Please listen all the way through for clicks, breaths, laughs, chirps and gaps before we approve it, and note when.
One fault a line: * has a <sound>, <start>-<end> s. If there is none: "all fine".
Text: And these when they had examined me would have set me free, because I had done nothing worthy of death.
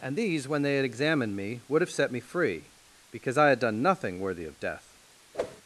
* has a whoosh, 5.3-5.6 s